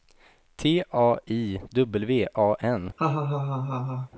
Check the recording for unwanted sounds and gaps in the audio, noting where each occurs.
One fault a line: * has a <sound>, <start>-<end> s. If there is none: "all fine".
* has a laugh, 3.0-4.1 s